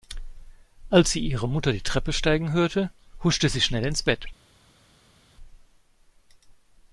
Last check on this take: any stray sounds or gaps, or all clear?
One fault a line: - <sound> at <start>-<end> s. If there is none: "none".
none